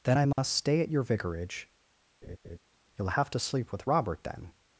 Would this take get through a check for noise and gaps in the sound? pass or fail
fail